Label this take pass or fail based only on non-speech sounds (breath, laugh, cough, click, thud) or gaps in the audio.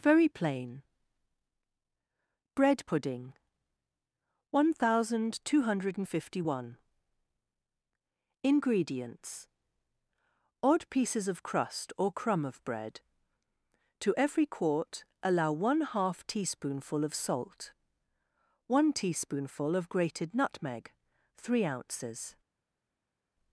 pass